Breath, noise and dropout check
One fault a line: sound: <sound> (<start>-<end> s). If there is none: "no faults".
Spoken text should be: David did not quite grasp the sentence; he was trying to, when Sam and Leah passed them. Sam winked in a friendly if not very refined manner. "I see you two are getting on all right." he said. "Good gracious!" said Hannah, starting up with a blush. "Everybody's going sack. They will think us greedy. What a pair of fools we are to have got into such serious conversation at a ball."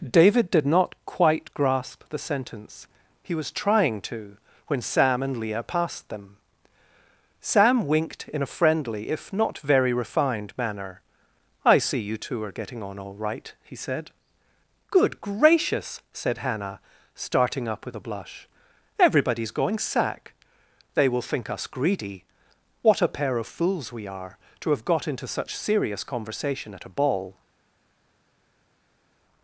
no faults